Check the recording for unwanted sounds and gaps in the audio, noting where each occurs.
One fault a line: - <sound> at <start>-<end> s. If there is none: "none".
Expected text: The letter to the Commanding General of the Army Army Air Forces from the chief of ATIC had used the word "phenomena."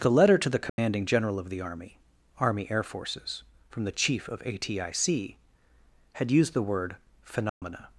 - dropout at 0.7-0.8 s
- dropout at 7.5-7.6 s